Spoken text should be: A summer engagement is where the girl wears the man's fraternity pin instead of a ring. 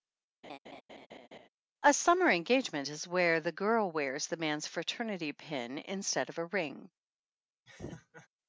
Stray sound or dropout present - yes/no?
yes